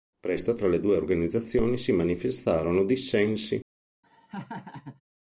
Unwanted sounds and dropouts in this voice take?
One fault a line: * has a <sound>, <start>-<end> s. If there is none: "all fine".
* has a laugh, 4.0-5.0 s